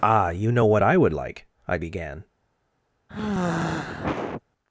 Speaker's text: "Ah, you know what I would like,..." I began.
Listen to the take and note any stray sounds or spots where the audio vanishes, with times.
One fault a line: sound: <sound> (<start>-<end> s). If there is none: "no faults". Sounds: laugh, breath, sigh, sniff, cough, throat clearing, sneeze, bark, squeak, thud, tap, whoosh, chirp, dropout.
sound: sigh (3.1-4.4 s)